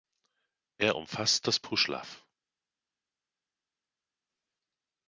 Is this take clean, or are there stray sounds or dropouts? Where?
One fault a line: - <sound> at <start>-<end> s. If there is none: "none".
none